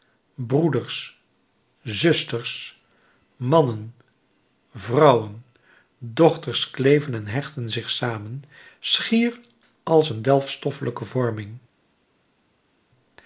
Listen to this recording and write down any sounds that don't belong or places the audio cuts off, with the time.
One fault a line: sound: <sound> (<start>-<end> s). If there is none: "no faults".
no faults